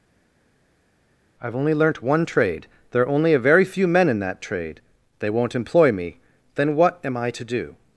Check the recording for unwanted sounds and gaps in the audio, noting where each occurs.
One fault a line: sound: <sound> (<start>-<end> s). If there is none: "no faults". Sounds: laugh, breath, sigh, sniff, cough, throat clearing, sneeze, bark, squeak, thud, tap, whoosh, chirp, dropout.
no faults